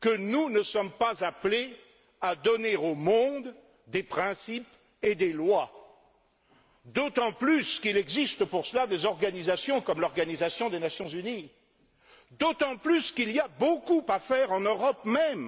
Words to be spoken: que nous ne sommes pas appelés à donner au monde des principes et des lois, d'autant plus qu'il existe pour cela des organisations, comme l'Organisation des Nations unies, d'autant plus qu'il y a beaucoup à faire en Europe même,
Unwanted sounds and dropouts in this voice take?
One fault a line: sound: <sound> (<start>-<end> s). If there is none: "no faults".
no faults